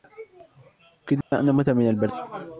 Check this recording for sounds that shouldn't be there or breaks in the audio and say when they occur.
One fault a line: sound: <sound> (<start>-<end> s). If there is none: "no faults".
sound: dropout (1.2-1.3 s)